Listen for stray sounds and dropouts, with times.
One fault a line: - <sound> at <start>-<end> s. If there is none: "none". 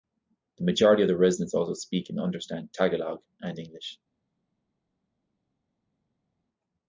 none